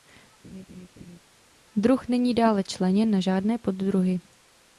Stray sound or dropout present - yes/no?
yes